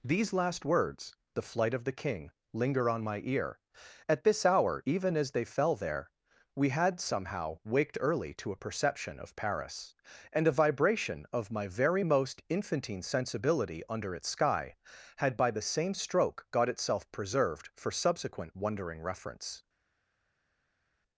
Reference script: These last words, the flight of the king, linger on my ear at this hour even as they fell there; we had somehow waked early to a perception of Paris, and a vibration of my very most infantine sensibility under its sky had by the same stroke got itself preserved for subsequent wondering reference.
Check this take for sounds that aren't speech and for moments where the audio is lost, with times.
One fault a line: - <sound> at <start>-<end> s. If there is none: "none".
none